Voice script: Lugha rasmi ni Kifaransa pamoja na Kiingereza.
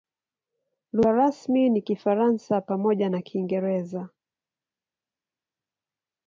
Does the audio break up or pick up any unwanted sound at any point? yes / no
no